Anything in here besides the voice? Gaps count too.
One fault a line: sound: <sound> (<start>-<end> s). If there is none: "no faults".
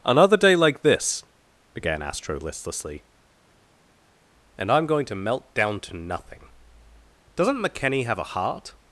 no faults